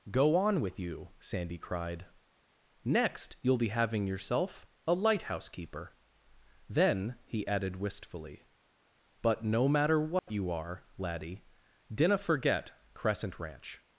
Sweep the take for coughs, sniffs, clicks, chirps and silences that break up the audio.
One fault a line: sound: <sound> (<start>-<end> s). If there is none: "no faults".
sound: dropout (10.2-10.3 s)